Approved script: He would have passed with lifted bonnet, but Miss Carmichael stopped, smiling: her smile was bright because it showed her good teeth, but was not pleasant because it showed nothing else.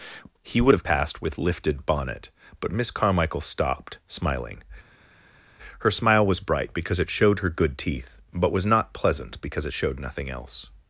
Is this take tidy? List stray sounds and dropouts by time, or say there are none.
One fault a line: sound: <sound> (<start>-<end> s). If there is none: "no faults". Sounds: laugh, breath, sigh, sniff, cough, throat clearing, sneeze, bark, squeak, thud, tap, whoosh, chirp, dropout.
no faults